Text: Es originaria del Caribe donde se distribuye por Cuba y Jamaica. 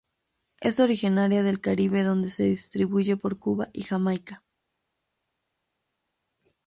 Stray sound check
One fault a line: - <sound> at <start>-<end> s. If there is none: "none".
none